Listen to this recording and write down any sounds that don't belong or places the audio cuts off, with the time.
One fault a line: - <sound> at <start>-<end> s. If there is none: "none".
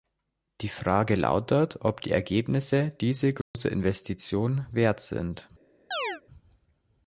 - dropout at 3.4-3.5 s
- chirp at 5.9-6.2 s